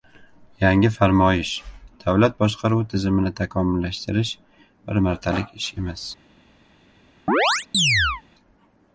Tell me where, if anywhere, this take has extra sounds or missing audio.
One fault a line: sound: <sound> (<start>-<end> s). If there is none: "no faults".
sound: chirp (7.3-8.2 s)